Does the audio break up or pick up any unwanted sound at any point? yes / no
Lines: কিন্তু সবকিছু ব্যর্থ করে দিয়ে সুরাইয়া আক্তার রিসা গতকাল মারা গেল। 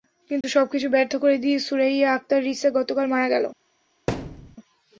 yes